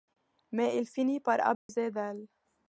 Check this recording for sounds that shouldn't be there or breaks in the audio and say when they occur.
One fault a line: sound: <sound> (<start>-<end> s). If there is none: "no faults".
sound: dropout (1.5-1.7 s)